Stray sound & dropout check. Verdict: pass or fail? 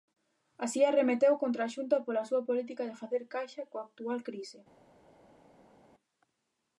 pass